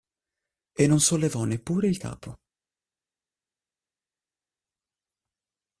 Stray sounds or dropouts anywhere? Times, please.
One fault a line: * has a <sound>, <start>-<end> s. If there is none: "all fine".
all fine